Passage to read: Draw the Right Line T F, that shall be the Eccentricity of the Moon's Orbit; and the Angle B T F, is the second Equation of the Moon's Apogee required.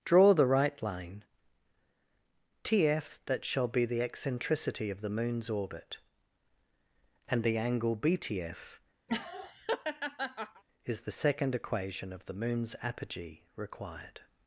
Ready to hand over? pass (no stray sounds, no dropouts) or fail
fail